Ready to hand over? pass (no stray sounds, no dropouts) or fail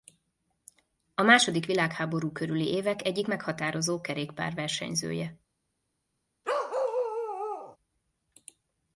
fail